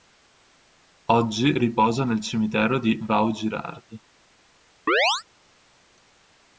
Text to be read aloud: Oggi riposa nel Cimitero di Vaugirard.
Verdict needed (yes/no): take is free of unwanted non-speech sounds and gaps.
no